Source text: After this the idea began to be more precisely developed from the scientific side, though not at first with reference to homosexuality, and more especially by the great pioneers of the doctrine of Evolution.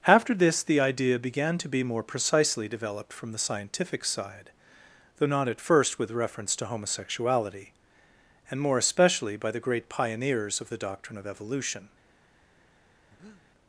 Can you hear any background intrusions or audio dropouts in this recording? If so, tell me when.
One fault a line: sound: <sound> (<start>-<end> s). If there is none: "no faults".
sound: breath (13.1-13.4 s)